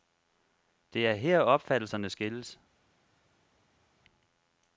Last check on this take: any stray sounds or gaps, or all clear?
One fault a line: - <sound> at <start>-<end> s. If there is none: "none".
none